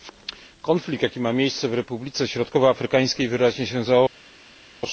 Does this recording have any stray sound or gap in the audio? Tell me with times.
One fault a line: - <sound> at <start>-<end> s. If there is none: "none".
none